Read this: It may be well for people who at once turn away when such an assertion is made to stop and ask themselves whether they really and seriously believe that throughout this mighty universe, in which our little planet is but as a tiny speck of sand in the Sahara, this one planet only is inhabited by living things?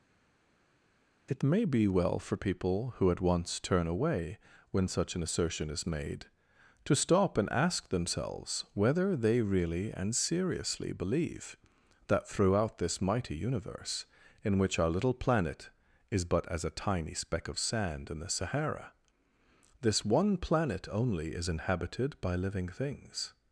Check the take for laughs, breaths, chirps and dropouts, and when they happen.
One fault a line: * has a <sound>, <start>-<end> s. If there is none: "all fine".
all fine